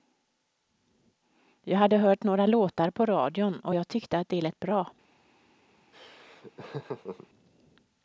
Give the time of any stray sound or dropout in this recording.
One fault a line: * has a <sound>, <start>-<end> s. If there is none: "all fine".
* has a laugh, 5.9-7.3 s